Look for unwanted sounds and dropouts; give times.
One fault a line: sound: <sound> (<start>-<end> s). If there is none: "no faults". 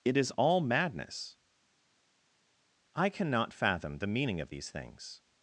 no faults